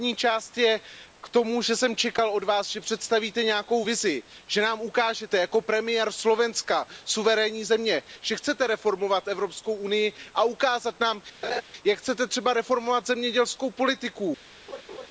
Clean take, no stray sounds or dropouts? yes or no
no